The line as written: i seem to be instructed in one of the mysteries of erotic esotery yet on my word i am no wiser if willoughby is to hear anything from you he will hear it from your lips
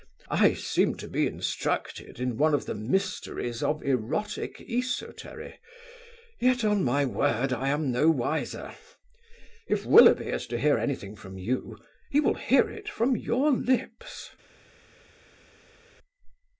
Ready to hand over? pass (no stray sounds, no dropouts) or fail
pass